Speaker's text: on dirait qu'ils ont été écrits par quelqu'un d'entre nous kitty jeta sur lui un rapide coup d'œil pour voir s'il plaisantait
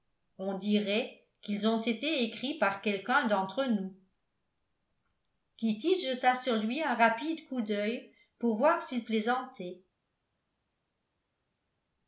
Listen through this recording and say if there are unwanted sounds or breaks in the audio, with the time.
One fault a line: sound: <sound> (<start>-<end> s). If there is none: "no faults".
no faults